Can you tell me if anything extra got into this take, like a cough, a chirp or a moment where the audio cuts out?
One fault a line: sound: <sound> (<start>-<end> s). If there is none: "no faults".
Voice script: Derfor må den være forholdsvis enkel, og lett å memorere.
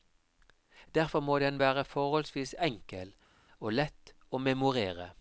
no faults